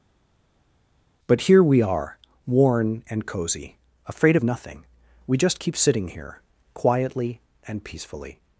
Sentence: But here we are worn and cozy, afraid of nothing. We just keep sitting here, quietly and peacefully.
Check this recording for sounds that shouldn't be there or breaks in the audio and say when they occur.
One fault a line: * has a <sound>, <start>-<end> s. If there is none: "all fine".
all fine